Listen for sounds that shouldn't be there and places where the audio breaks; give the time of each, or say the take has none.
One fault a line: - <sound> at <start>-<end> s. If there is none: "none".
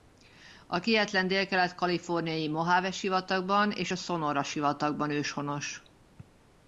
none